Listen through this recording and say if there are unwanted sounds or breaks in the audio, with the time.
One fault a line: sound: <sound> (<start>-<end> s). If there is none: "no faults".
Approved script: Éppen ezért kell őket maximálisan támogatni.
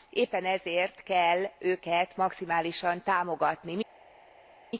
no faults